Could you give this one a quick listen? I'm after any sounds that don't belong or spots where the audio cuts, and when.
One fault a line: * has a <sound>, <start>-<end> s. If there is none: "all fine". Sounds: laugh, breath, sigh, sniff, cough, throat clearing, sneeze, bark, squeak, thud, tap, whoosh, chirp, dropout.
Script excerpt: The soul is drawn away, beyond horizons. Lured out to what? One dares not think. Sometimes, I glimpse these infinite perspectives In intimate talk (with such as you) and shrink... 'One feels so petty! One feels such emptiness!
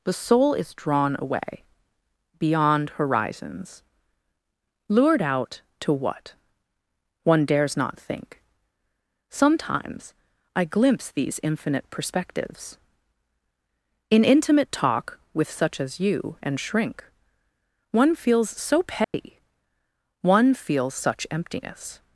* has a dropout, 19.0-19.1 s